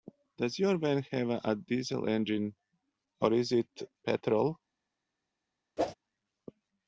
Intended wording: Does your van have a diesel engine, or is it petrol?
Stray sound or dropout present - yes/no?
yes